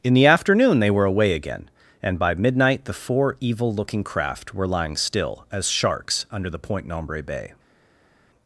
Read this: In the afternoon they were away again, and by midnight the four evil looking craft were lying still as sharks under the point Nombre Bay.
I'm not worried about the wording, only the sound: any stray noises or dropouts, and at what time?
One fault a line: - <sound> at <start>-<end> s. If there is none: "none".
none